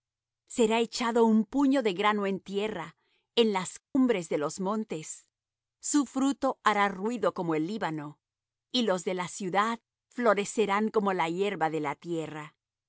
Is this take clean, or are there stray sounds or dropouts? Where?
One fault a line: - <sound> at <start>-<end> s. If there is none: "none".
- dropout at 3.8-4.0 s